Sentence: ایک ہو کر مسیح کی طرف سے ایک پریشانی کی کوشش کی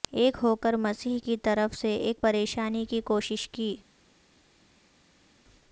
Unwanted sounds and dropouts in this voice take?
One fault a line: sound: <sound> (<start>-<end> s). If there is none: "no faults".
no faults